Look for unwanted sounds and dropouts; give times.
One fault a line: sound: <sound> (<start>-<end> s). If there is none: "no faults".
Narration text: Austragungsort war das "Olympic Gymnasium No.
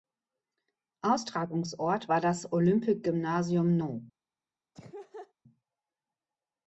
sound: laugh (4.7-5.3 s)